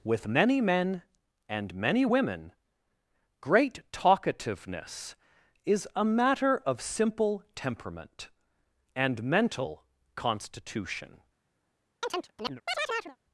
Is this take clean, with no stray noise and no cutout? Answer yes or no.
no